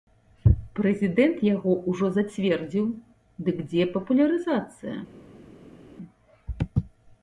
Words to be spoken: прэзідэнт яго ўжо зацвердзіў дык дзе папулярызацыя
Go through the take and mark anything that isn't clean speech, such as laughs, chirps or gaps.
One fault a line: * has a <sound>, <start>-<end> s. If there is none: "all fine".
all fine